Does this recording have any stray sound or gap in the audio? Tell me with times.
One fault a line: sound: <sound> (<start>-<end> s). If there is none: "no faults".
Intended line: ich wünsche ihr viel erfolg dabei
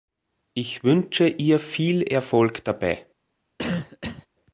sound: cough (3.6-4.3 s)